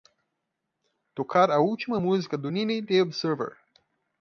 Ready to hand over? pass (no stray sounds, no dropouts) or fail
pass